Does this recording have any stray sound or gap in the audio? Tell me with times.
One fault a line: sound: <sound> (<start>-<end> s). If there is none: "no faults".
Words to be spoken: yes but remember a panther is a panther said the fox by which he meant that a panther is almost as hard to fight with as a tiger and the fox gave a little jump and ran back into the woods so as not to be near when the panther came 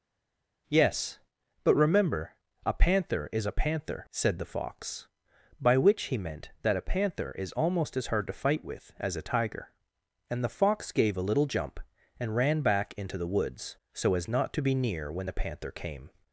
no faults